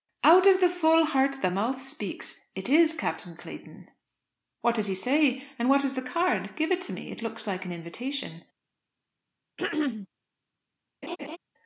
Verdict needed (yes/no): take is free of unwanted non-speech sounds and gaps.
no